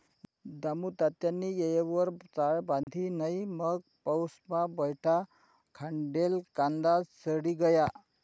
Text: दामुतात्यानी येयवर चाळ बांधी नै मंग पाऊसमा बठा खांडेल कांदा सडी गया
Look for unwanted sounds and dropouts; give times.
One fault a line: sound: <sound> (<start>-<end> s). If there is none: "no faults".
sound: dropout (2.8-2.9 s)